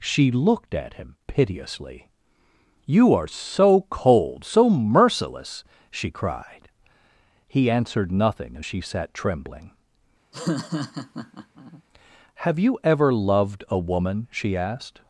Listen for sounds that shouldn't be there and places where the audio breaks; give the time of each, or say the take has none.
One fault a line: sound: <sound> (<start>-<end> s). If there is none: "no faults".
sound: laugh (10.3-11.8 s)